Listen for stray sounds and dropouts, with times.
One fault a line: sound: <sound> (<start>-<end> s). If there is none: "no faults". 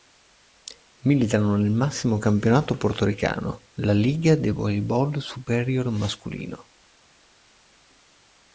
no faults